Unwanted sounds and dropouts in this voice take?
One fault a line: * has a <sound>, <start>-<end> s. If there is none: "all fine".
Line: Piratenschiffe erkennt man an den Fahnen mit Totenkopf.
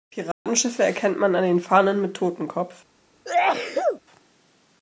* has a dropout, 0.3-0.5 s
* has a sneeze, 3.3-4.0 s